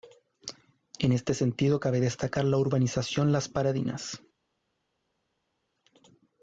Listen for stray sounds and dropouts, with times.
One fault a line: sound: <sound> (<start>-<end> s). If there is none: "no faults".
no faults